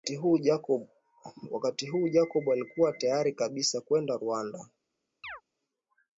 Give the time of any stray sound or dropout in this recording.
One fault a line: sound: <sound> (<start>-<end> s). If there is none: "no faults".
sound: chirp (5.2-5.4 s)